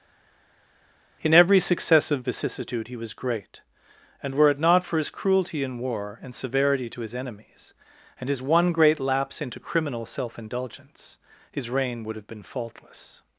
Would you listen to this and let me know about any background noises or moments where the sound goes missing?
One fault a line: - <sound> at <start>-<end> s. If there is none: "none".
none